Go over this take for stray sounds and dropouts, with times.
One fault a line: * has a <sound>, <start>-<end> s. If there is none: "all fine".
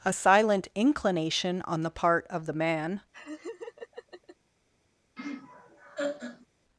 * has a laugh, 3.1-4.4 s
* has a laugh, 5.2-6.5 s